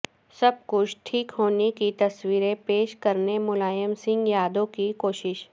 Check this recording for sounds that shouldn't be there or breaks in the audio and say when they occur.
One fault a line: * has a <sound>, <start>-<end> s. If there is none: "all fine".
all fine